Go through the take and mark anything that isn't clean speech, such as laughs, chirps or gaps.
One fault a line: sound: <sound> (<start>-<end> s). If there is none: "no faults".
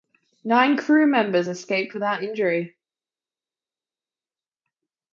no faults